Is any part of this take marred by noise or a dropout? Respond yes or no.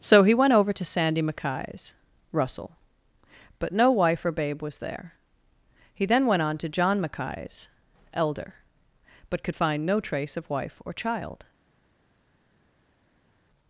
no